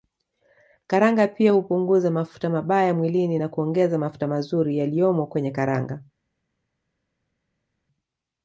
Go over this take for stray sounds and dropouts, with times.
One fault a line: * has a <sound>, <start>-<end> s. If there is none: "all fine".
all fine